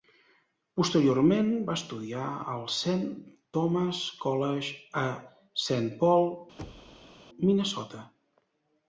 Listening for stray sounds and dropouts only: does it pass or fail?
fail